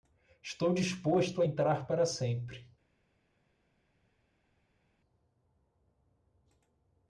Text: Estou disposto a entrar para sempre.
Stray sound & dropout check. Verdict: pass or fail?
pass